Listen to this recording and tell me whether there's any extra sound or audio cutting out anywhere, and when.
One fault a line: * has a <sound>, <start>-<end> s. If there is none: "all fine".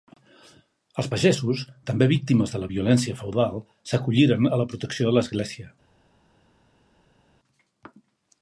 all fine